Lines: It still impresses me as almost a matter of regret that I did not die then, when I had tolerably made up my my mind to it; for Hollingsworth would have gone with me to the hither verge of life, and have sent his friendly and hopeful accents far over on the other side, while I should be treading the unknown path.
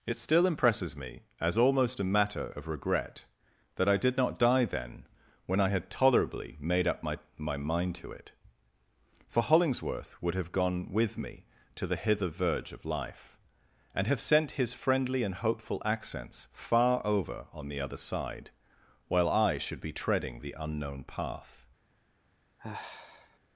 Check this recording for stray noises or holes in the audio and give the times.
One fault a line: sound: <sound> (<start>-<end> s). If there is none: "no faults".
sound: sigh (22.6-23.4 s)